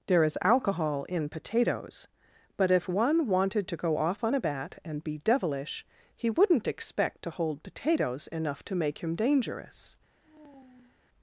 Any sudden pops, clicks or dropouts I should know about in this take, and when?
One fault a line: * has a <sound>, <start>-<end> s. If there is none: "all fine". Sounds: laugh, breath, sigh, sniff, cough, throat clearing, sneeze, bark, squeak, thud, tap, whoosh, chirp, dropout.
* has a sigh, 10.2-11.1 s